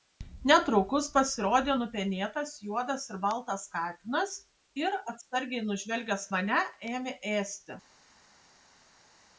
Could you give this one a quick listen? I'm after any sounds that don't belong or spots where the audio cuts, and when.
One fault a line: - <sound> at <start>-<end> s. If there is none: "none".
none